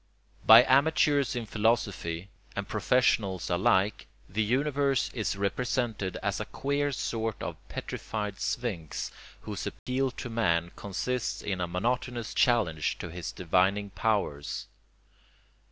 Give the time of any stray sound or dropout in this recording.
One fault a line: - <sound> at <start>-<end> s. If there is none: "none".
- dropout at 9.8-9.9 s